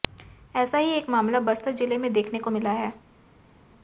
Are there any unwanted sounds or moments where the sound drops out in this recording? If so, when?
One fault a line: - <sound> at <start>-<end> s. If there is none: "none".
none